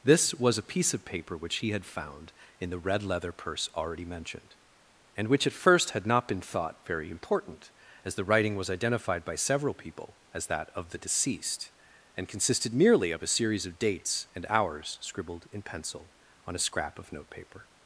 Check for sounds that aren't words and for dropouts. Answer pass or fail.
pass